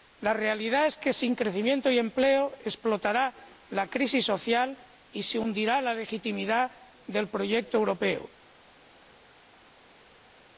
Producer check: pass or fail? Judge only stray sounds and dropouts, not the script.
pass